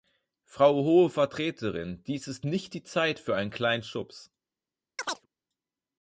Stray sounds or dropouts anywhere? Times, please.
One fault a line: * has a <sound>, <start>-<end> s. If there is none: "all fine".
* has a chirp, 5.0-5.3 s